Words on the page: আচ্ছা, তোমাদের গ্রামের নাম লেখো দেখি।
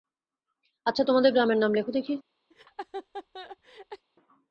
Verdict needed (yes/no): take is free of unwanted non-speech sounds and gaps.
no